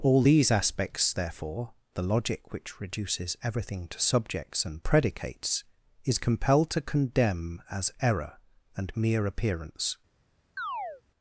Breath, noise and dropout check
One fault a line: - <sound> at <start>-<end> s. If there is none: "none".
- chirp at 10.6-11.0 s